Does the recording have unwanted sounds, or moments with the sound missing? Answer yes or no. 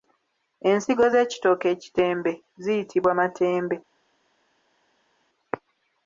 no